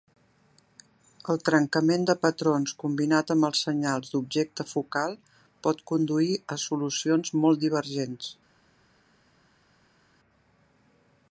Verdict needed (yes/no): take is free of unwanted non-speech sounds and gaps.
yes